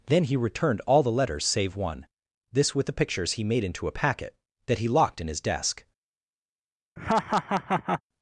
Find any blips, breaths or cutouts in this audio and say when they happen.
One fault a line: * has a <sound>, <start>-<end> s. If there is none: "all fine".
* has a laugh, 7.0-8.0 s